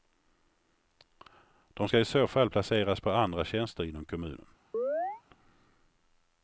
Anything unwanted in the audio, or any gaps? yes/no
yes